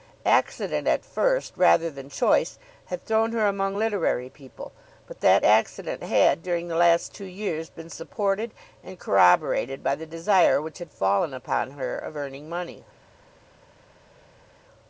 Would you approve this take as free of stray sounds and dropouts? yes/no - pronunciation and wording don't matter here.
yes